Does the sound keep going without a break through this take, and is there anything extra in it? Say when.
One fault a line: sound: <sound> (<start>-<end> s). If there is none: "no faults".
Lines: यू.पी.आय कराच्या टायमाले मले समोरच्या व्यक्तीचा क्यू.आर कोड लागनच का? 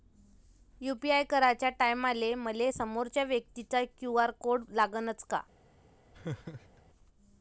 sound: laugh (6.1-6.8 s)